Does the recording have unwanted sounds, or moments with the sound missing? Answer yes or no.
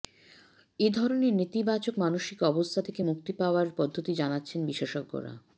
no